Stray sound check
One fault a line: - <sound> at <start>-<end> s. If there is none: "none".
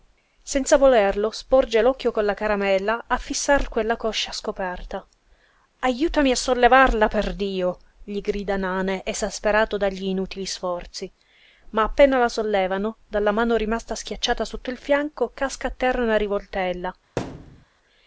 - thud at 17.2-17.7 s